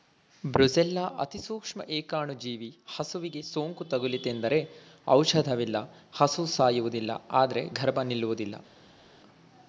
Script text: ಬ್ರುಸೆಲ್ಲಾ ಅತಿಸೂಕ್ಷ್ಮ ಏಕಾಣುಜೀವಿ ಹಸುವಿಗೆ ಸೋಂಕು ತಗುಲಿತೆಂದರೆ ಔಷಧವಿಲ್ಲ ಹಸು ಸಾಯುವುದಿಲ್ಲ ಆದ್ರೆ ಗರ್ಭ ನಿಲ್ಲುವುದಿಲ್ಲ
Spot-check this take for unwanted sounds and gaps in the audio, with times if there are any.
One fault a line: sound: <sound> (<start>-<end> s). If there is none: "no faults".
no faults